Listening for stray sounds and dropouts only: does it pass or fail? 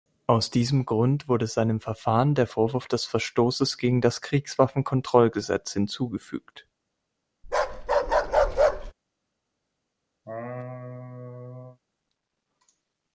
fail